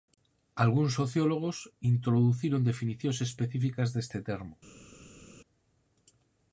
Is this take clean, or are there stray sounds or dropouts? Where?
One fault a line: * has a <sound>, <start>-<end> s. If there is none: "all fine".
all fine